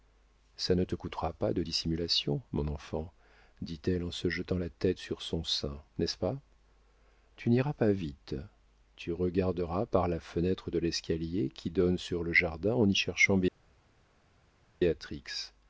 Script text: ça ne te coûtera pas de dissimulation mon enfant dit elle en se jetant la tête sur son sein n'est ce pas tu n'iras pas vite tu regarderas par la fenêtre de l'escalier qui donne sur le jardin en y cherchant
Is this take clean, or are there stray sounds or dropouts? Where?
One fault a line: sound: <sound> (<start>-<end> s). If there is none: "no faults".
no faults